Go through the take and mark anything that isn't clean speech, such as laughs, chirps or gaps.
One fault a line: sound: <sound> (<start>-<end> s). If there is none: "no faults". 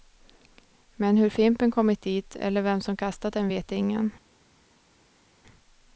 no faults